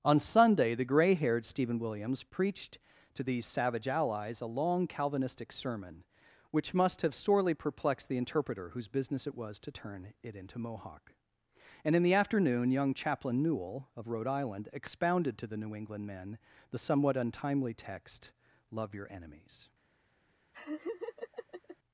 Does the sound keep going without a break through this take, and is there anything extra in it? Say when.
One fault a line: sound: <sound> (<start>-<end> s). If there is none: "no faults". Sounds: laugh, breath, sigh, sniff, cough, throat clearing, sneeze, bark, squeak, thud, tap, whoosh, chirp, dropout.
sound: laugh (20.5-21.8 s)